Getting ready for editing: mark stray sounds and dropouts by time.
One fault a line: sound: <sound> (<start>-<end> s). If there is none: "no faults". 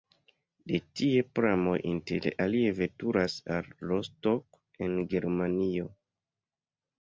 no faults